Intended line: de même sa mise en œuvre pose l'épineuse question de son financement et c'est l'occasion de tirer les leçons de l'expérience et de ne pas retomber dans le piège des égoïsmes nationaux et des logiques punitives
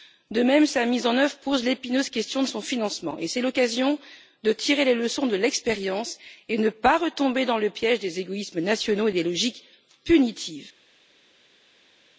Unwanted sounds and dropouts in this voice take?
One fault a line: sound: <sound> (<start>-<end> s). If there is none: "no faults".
no faults